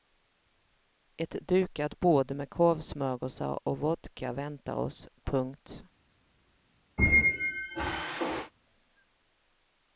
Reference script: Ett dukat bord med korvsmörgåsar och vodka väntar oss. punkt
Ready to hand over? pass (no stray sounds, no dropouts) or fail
fail